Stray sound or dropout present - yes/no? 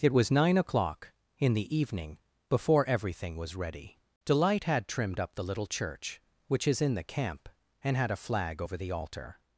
no